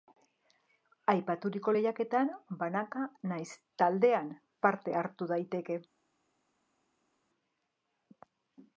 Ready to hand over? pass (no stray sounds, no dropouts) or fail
pass